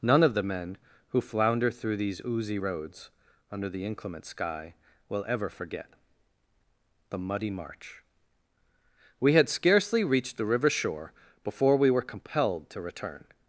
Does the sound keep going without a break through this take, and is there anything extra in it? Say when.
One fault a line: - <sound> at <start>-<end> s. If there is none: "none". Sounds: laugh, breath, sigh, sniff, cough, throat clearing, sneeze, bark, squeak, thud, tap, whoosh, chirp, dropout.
none